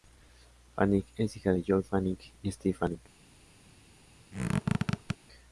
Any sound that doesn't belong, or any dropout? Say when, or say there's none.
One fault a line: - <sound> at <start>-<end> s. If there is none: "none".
- squeak at 4.3-5.2 s